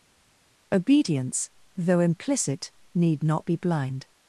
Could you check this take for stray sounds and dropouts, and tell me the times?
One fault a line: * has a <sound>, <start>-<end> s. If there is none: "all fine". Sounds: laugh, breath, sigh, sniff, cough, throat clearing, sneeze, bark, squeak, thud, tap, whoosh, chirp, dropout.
all fine